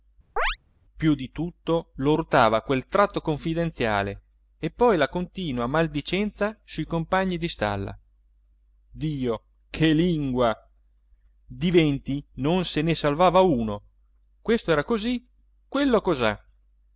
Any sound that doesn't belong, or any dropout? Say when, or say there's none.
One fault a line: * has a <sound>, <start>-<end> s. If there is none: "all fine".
* has a chirp, 0.4-0.6 s